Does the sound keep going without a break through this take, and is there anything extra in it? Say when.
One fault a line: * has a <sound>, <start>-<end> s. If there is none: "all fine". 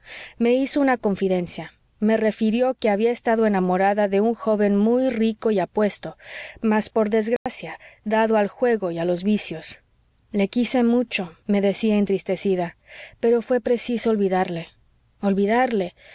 * has a dropout, 7.4-7.5 s